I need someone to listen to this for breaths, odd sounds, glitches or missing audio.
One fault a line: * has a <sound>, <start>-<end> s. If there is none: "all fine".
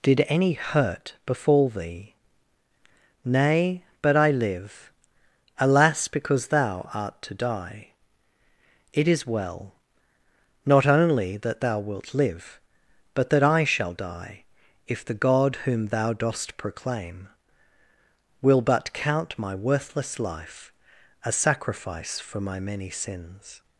all fine